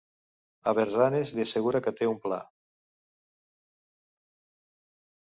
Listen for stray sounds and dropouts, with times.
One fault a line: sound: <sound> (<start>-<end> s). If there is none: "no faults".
no faults